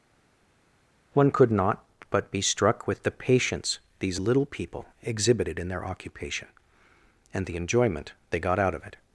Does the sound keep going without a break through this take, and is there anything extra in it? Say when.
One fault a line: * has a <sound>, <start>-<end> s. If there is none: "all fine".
all fine